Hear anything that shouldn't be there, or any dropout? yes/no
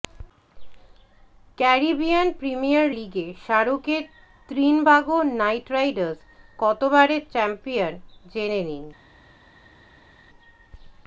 no